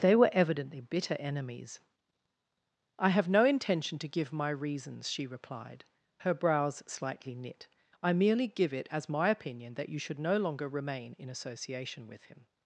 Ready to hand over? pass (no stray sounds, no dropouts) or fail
pass